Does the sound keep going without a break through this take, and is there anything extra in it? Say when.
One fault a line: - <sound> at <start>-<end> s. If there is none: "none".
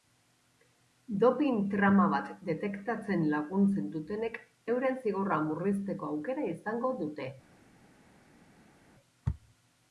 none